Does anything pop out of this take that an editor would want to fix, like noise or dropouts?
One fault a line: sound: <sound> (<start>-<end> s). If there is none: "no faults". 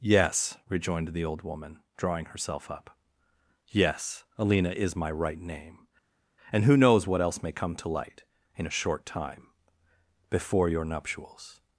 no faults